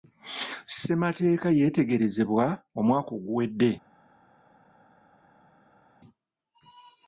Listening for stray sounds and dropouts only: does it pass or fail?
pass